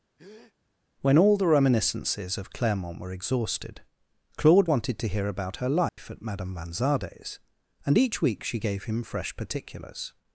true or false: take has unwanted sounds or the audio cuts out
true